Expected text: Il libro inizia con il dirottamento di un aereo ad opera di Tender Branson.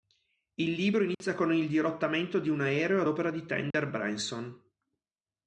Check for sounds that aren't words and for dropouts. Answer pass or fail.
fail